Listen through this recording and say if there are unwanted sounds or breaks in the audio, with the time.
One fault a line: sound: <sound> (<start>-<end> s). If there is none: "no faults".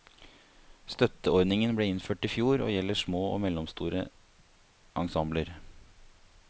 no faults